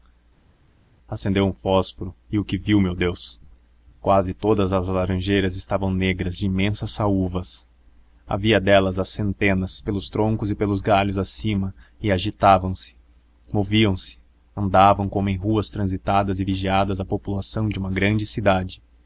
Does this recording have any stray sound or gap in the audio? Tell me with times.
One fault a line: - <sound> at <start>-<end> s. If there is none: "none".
none